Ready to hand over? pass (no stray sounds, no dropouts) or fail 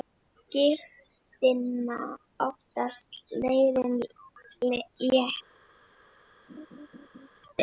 fail